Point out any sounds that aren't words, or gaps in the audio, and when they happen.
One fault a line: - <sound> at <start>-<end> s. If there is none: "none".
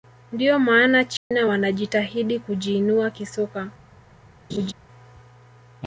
- dropout at 1.2-1.3 s
- laugh at 4.5-4.7 s